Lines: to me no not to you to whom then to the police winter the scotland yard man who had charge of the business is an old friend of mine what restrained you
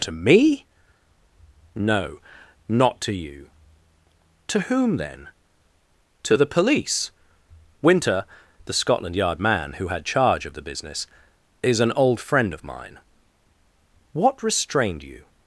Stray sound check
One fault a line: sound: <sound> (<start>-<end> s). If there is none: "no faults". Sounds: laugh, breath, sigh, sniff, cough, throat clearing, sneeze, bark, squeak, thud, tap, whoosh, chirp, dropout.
no faults